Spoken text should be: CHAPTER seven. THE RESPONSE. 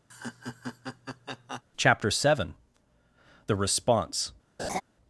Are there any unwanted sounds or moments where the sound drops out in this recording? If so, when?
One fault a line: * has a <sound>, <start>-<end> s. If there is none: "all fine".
* has a laugh, 0.1-1.6 s
* has a laugh, 4.6-4.8 s